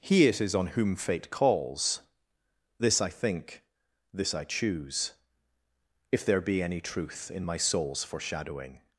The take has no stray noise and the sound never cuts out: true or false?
true